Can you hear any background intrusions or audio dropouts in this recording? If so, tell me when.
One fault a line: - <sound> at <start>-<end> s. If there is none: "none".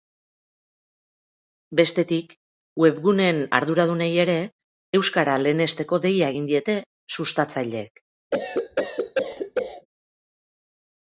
- cough at 8.3-9.9 s